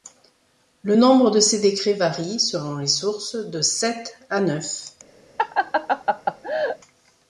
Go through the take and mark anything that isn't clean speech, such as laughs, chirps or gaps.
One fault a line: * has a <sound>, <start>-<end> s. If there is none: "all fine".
* has a laugh, 5.4-6.8 s